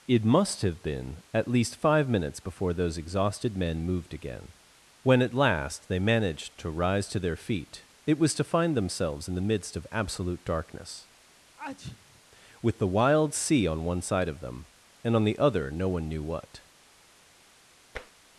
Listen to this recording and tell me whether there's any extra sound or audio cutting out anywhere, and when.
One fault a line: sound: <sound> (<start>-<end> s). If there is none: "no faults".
sound: sneeze (11.6-12.2 s)
sound: tap (18.0-18.1 s)